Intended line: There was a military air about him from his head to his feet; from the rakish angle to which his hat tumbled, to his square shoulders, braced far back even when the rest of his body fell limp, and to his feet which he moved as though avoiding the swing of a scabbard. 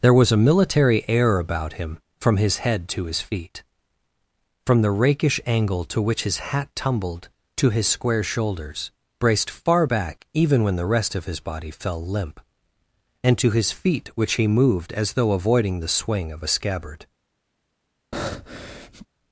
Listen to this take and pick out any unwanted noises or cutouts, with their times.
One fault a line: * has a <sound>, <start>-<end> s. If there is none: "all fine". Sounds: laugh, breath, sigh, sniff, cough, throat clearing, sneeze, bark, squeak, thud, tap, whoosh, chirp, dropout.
* has a breath, 18.1-19.1 s